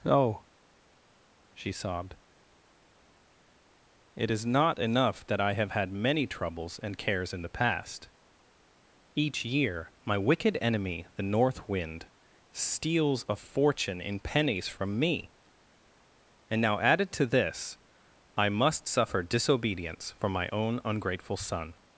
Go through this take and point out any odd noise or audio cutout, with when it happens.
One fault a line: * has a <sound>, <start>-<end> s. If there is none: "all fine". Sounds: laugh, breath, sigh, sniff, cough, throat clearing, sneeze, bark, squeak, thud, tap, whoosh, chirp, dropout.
all fine